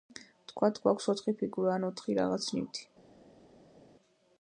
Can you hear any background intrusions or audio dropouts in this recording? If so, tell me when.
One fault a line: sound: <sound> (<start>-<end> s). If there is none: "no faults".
no faults